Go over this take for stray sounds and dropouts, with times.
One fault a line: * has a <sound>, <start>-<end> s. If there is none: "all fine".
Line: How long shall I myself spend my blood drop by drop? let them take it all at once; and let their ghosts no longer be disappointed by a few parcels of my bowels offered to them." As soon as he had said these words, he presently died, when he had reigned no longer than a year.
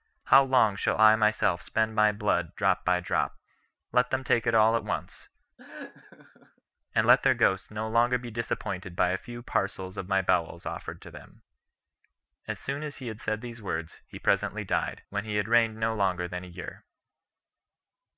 * has a laugh, 5.6-6.6 s